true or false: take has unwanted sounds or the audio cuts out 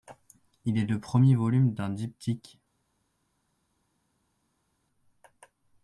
false